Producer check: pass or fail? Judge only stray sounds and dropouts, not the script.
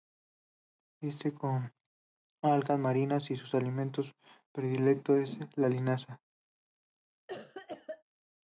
fail